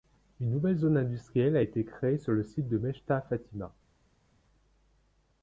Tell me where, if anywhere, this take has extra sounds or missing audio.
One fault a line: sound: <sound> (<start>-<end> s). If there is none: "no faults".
no faults